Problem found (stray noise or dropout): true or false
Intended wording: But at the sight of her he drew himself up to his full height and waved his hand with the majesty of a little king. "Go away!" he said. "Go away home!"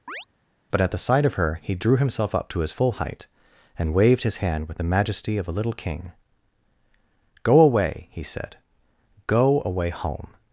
true